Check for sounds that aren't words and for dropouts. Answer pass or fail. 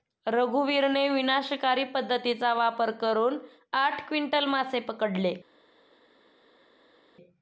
pass